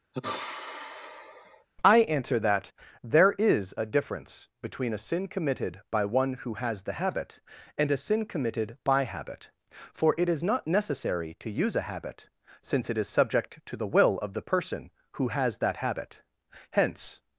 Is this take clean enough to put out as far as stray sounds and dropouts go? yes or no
no